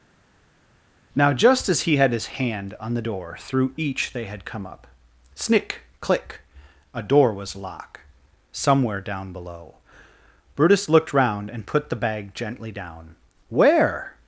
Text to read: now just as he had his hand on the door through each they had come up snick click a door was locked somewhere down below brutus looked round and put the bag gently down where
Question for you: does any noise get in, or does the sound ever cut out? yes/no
no